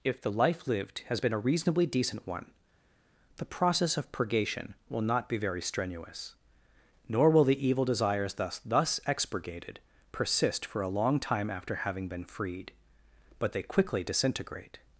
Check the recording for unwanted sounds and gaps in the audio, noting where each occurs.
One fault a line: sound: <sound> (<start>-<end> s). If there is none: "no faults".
no faults